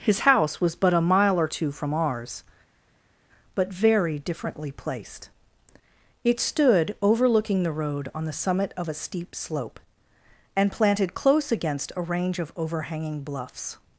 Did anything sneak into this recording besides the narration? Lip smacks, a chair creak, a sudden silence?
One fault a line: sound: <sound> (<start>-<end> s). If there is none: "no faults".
no faults